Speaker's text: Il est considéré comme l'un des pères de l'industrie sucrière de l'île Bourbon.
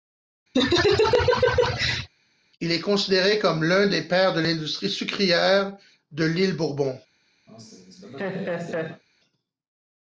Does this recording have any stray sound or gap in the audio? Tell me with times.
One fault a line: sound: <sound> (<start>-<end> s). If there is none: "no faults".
sound: laugh (0.5-2.1 s)
sound: laugh (7.5-9.0 s)